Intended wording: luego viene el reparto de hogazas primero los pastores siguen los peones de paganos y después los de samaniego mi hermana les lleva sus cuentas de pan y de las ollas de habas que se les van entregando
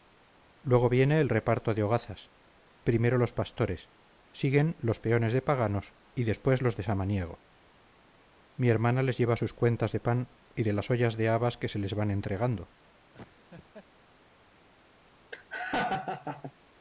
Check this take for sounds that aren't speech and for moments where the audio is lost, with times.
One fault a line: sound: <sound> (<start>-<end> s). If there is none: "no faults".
sound: laugh (13.1-13.9 s)
sound: laugh (15.3-16.5 s)